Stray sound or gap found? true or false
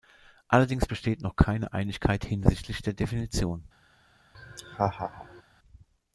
true